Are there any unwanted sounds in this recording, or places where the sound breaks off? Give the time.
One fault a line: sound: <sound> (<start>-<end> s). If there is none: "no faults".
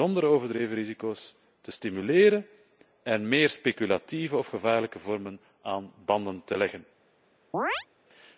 sound: chirp (7.5-7.9 s)